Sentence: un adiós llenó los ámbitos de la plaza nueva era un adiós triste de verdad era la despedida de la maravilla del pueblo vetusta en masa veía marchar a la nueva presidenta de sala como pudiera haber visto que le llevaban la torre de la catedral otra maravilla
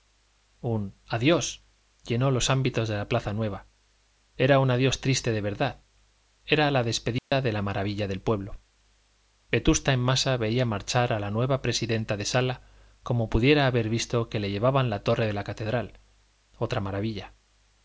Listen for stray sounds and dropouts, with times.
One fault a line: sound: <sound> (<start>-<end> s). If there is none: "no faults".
sound: dropout (7.2-7.3 s)